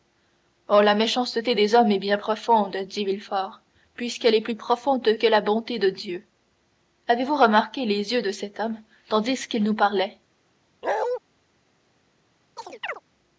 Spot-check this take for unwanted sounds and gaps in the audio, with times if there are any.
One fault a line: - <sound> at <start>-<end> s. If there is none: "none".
- bark at 10.8-11.2 s
- chirp at 12.6-13.0 s